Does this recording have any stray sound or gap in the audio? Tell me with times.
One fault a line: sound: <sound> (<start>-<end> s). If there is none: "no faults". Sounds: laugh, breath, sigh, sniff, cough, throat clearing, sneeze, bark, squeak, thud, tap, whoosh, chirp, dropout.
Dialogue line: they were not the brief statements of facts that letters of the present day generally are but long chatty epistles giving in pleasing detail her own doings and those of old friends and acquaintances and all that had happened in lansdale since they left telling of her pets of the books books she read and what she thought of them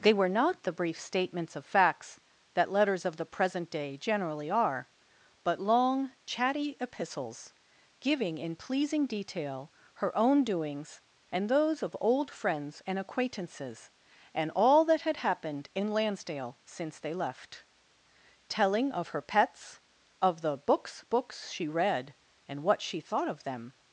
no faults